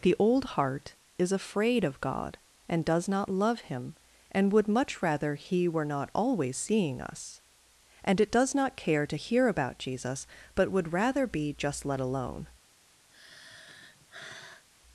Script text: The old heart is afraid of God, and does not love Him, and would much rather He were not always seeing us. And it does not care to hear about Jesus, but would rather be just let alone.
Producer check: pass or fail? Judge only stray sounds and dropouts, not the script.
fail